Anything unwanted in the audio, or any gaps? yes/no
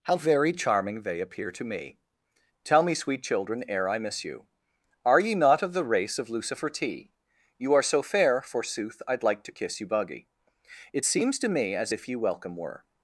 no